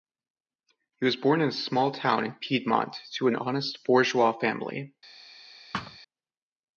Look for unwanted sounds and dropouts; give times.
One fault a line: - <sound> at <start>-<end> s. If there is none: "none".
- thud at 5.7-6.0 s